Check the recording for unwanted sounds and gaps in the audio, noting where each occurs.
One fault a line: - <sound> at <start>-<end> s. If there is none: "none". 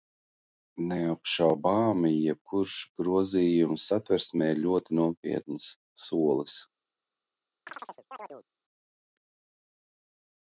- chirp at 7.7-8.5 s